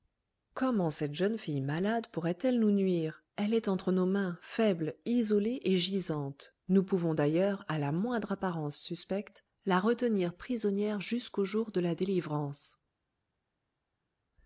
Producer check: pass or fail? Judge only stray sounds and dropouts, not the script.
pass